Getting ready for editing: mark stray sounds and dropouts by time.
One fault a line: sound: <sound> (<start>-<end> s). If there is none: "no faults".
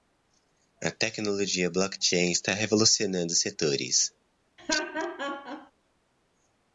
sound: laugh (4.6-5.7 s)